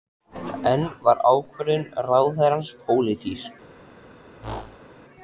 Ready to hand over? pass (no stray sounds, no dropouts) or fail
fail